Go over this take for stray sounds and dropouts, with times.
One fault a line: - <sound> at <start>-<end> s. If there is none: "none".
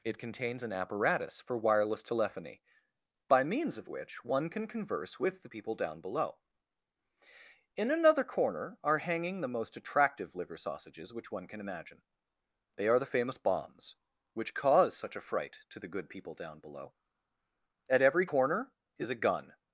none